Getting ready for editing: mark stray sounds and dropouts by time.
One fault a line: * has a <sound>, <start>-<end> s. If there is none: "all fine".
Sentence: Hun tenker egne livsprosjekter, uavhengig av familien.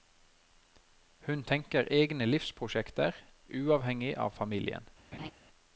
* has a laugh, 5.1-5.3 s